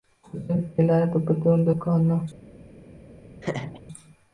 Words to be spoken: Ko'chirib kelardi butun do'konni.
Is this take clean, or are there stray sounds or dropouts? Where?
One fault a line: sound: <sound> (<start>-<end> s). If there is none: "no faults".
sound: laugh (3.4-3.8 s)